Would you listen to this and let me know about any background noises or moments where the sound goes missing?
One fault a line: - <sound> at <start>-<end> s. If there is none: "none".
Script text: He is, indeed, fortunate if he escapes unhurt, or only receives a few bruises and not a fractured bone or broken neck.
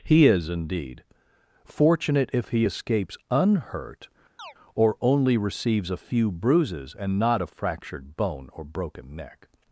- chirp at 4.4-4.5 s